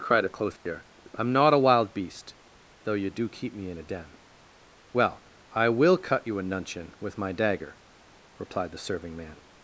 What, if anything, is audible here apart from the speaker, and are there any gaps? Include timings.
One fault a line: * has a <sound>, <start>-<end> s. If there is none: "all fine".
* has a dropout, 0.6-0.7 s